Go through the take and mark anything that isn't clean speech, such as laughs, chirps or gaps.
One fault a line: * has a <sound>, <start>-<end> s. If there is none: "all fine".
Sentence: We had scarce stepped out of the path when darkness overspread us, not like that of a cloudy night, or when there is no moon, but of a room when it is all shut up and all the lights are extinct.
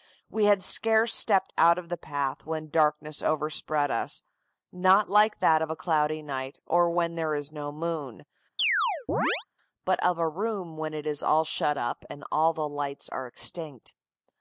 * has a chirp, 8.6-9.5 s